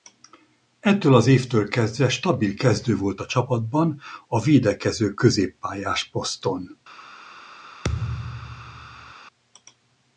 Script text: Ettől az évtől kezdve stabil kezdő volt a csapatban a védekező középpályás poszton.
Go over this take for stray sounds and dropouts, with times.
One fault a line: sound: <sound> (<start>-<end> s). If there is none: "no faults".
sound: thud (7.8-9.1 s)